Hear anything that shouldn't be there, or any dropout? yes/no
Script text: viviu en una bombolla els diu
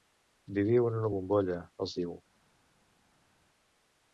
no